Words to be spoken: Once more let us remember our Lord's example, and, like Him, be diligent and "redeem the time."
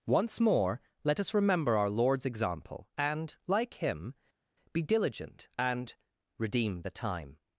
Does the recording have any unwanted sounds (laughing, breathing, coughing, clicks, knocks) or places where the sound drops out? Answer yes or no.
no